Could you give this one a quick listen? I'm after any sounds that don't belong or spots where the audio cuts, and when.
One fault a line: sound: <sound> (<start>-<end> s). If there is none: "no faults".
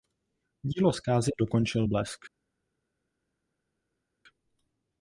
no faults